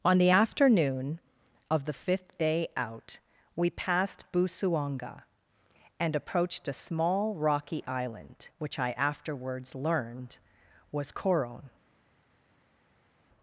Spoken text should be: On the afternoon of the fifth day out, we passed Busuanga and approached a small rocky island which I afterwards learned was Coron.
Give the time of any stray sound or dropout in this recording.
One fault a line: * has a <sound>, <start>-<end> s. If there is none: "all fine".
all fine